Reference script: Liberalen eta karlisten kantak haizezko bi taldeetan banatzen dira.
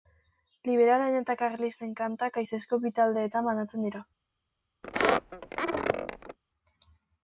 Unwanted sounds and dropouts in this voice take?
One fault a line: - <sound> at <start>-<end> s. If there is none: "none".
- squeak at 4.8-6.4 s